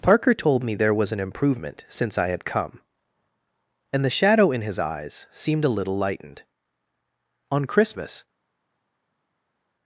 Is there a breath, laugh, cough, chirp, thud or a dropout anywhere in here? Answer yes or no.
no